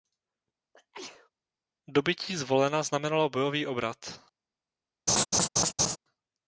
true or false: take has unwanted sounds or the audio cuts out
true